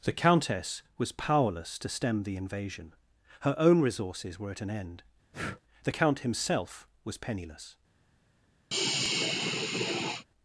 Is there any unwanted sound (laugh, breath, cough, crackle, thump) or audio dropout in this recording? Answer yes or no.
yes